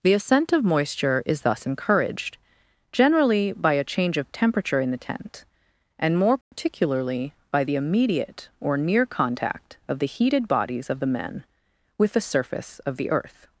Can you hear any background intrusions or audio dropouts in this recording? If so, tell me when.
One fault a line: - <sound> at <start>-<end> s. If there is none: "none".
- dropout at 6.4-6.5 s